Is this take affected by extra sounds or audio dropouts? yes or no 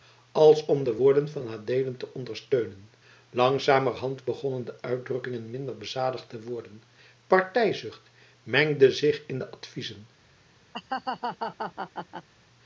yes